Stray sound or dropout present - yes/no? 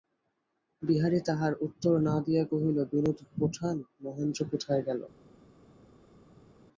no